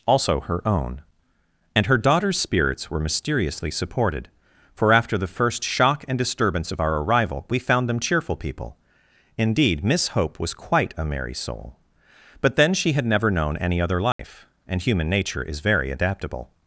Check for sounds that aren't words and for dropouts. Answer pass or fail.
fail